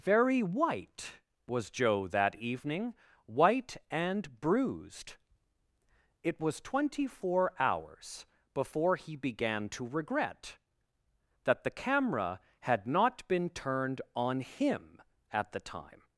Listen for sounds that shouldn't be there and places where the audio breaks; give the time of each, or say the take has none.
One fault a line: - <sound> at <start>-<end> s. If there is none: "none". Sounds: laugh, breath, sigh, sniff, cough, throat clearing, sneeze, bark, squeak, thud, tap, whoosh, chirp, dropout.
none